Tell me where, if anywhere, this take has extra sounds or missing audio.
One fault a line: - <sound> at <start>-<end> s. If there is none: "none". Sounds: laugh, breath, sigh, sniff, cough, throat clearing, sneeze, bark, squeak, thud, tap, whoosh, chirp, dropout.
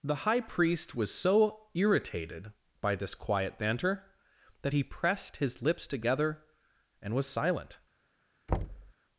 - thud at 8.5-8.9 s